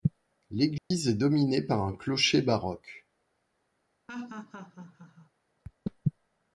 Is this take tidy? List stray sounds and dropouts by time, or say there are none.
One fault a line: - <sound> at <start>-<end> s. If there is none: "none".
- dropout at 0.8-0.9 s
- laugh at 4.1-5.3 s